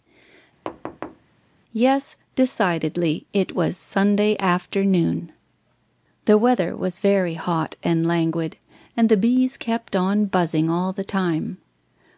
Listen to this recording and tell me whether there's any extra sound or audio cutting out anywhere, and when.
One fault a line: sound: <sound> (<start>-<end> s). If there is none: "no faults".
sound: thud (0.6-1.3 s)